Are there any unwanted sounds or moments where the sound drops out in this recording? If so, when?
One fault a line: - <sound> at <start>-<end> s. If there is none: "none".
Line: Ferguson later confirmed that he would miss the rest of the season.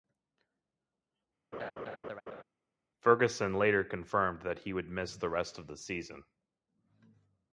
- laugh at 1.5-2.4 s